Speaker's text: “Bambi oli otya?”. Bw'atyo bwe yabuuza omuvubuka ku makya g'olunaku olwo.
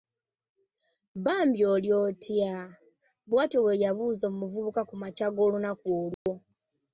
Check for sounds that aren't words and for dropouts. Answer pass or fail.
fail